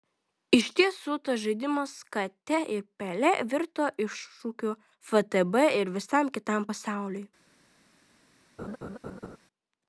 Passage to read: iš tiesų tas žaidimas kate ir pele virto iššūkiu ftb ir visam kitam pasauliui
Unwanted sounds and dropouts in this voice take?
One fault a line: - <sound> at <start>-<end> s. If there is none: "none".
- laugh at 8.6-9.4 s